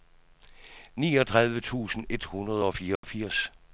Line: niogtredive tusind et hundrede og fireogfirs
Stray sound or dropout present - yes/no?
yes